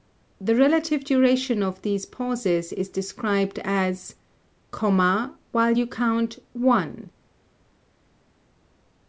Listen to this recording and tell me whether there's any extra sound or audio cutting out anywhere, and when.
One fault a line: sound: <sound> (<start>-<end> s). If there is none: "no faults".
no faults